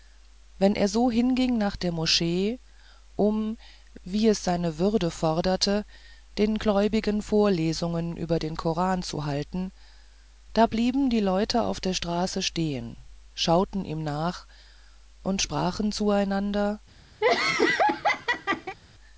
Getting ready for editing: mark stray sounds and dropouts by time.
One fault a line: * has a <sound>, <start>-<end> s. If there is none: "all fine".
* has a laugh, 17.2-18.8 s